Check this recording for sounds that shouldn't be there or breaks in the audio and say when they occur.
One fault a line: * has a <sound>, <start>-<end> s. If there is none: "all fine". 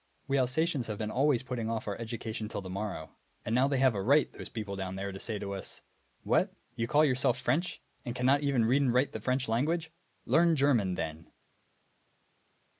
all fine